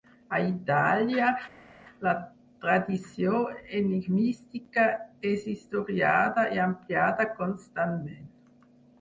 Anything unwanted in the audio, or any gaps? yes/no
no